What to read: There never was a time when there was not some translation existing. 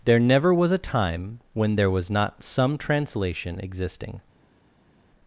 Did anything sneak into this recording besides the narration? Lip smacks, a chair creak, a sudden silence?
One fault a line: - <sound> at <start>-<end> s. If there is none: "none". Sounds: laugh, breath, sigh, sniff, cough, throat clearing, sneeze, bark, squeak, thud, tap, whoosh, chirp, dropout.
none